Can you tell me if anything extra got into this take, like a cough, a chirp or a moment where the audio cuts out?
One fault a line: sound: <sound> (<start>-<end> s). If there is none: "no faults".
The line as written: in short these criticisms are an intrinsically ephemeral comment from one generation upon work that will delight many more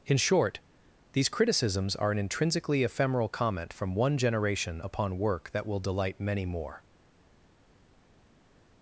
no faults